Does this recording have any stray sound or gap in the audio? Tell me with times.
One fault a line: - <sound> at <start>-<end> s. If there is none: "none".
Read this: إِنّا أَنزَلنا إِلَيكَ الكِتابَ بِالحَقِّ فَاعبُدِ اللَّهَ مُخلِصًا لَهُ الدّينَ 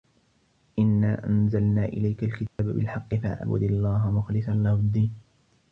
- dropout at 2.5-2.6 s